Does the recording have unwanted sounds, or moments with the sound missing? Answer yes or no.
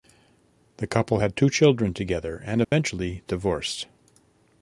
yes